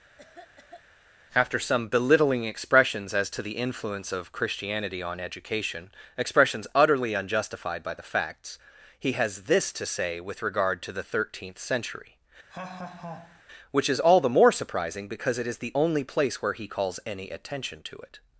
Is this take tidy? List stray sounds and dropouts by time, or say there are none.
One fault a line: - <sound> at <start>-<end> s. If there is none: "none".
- cough at 0.2-0.8 s
- laugh at 12.5-13.4 s